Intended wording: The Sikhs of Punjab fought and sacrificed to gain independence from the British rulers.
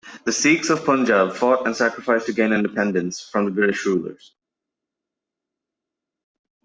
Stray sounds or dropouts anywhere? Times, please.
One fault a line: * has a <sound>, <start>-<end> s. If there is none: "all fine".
all fine